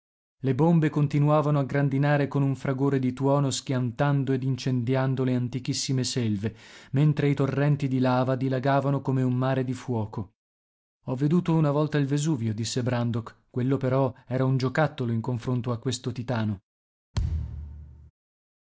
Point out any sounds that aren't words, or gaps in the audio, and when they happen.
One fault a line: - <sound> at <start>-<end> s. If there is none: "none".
- thud at 17.1-18.1 s